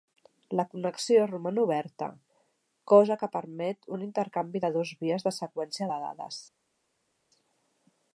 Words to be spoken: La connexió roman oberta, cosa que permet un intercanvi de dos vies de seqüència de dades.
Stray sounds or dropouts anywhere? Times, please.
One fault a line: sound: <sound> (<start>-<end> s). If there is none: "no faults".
no faults